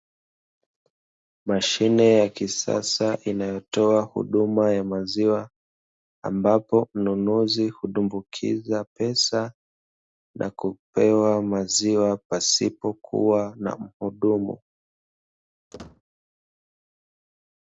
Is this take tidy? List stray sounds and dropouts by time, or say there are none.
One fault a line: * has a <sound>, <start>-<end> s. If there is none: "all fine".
* has a squeak, 15.7-16.0 s